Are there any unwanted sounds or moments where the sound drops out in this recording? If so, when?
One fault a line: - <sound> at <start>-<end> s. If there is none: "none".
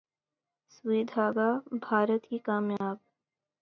- dropout at 2.8-2.8 s